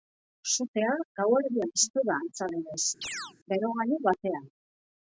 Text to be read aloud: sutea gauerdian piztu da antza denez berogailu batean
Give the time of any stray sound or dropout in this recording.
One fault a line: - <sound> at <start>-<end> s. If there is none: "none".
- chirp at 3.0-3.3 s